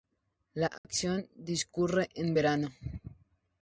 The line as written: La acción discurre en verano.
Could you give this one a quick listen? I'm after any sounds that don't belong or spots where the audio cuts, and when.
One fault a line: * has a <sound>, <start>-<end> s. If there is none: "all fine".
* has a dropout, 0.8-0.8 s